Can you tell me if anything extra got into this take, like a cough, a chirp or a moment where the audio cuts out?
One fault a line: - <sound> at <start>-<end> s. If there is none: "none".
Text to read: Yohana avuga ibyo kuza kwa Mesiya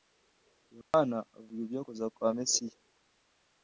- dropout at 0.8-0.9 s